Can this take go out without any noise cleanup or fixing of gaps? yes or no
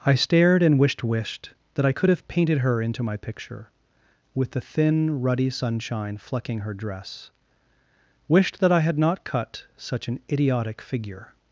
yes